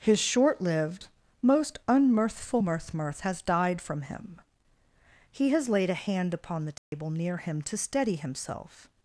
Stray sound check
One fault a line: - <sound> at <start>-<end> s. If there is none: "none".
- dropout at 6.8-6.9 s